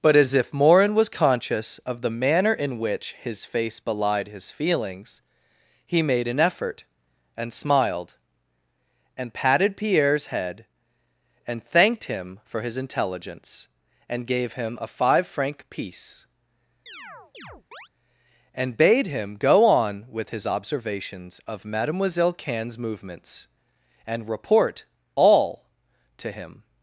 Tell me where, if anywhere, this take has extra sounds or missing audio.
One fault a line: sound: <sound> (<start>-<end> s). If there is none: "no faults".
sound: chirp (16.9-17.9 s)